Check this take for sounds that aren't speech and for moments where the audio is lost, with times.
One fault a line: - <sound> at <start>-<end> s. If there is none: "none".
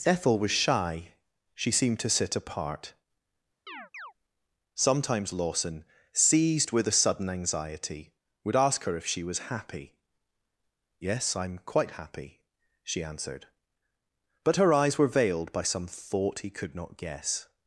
- chirp at 3.7-4.1 s